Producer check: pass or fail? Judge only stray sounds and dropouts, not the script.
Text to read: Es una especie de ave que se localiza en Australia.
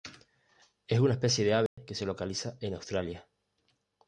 fail